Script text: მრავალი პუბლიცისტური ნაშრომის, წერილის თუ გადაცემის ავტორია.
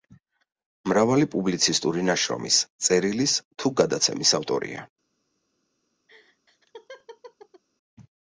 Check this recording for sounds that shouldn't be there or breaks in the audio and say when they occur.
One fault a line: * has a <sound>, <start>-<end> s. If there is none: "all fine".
* has a laugh, 6.1-7.6 s